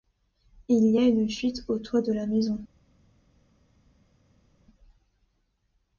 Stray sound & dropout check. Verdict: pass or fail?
pass